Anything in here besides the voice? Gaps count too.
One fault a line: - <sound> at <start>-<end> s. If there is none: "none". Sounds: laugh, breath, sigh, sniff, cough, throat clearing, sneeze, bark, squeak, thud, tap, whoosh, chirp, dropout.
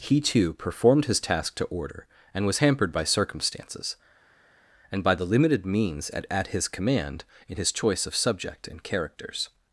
none